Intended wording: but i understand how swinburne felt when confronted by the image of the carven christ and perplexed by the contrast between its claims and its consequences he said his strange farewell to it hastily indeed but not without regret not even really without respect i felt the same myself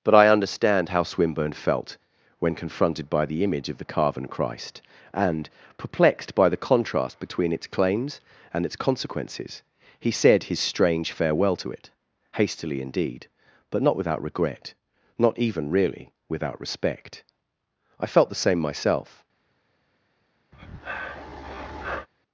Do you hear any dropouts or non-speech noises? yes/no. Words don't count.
yes